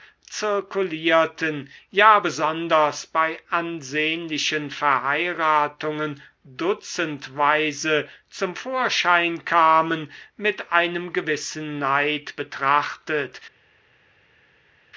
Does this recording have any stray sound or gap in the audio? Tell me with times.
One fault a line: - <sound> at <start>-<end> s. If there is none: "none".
none